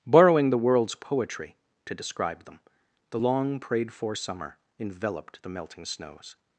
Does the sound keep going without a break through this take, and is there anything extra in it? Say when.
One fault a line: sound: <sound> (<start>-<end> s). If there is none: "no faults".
no faults